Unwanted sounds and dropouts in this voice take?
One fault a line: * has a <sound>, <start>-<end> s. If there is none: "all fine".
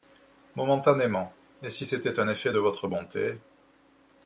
all fine